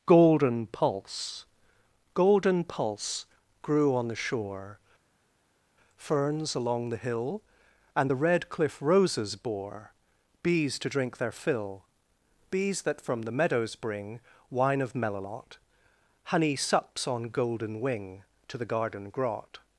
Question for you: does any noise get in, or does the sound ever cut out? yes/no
no